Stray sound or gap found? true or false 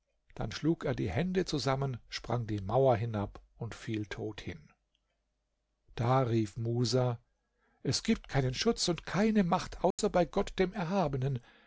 true